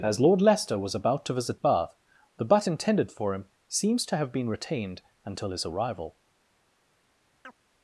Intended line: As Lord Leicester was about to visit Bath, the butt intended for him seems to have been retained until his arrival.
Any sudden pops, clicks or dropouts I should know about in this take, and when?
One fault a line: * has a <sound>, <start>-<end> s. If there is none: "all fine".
* has a chirp, 7.4-7.5 s